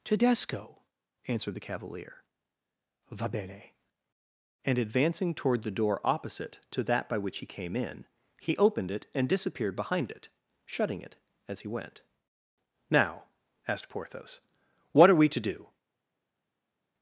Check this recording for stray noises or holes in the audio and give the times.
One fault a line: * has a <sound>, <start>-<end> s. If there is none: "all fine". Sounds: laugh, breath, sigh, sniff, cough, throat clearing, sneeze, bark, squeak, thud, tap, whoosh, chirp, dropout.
all fine